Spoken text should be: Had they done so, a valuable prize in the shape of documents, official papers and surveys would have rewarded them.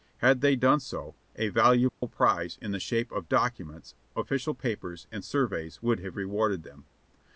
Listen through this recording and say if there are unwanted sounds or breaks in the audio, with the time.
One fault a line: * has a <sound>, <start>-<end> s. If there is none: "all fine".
* has a dropout, 1.9-2.0 s